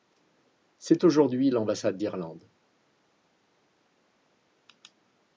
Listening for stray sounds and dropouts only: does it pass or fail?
pass